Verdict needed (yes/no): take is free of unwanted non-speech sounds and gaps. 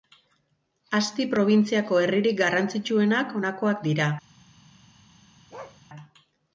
no